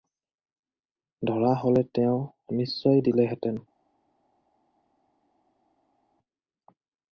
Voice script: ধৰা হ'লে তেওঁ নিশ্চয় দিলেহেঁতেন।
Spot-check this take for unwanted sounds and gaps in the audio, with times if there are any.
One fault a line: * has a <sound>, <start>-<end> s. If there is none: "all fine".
all fine